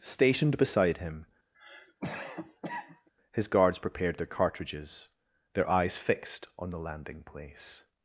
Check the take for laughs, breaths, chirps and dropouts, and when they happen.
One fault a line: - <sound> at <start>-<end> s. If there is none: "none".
- cough at 1.5-3.1 s